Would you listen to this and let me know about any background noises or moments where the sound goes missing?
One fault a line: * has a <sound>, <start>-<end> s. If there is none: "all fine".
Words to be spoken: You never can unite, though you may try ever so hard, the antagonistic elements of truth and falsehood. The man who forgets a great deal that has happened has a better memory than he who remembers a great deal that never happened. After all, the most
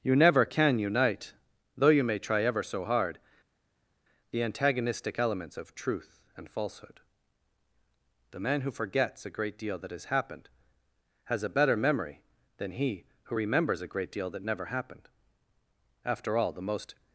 all fine